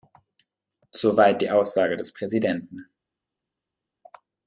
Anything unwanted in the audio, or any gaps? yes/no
no